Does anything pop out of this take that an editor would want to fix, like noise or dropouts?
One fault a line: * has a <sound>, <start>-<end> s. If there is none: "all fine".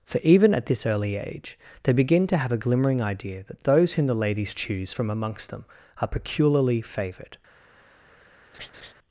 * has a laugh, 8.5-8.9 s